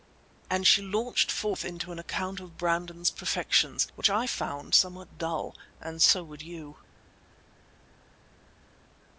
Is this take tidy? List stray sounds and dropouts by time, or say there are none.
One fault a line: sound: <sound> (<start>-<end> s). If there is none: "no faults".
no faults